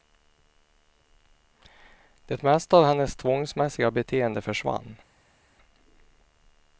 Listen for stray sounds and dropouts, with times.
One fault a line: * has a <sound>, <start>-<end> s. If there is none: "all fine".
all fine